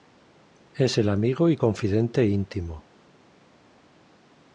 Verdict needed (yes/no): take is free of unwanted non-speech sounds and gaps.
yes